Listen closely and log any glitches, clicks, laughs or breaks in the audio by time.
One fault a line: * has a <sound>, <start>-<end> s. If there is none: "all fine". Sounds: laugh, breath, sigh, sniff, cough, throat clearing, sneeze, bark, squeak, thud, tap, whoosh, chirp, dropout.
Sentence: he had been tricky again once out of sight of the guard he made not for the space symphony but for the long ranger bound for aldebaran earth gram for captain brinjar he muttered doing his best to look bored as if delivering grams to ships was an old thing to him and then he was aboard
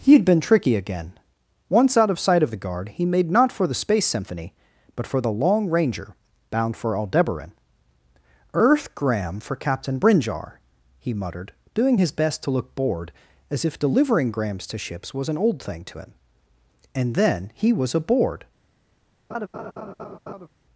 * has a laugh, 19.3-20.5 s